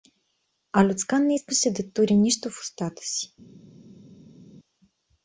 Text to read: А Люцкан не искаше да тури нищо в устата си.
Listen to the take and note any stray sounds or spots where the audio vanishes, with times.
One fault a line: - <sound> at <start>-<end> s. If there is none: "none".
none